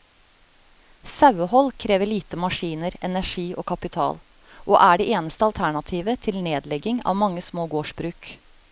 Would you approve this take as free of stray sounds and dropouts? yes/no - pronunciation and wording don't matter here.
yes